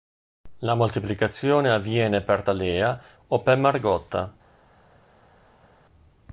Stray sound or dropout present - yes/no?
no